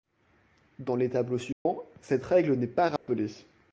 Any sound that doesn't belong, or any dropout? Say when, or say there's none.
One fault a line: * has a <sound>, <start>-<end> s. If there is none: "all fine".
* has a dropout, 1.5-1.7 s
* has a dropout, 3.0-3.1 s